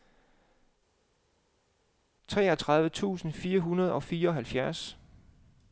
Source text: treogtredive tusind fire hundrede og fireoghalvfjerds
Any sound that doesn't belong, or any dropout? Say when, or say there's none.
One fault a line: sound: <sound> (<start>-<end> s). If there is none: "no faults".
no faults